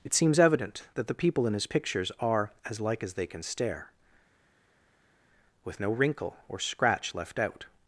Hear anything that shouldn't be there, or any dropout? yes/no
no